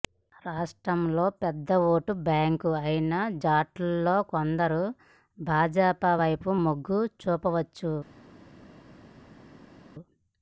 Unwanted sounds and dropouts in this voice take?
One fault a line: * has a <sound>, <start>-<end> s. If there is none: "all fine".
all fine